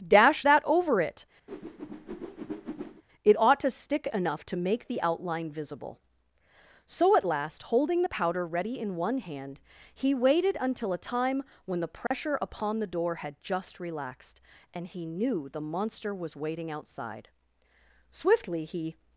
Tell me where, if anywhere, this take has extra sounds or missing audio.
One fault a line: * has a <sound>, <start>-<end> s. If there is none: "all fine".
* has a whoosh, 1.5-3.0 s
* has a dropout, 12.1-12.1 s